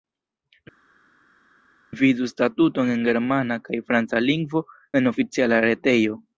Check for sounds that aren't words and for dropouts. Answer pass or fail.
pass